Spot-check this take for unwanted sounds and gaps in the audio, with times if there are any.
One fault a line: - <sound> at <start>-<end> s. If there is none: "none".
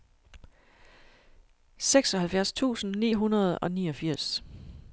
none